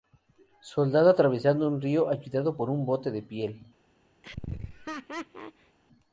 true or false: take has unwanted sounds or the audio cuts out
true